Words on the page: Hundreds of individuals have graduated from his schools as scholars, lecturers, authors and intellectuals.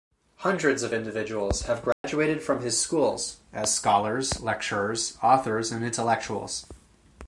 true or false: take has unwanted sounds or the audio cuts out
true